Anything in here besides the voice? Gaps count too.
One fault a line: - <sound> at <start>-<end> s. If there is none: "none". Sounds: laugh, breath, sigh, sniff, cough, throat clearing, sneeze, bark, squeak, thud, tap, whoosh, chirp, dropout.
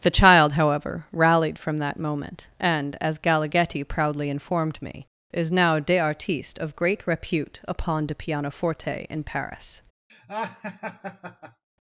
- laugh at 10.1-11.6 s